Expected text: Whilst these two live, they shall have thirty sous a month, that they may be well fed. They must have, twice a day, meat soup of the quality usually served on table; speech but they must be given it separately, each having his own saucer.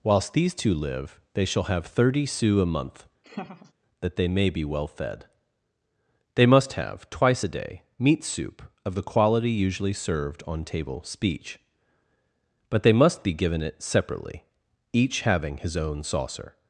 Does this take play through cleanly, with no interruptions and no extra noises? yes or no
no